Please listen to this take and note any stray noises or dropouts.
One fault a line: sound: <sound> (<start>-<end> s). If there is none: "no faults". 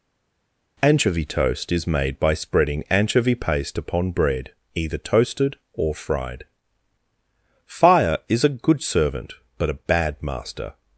no faults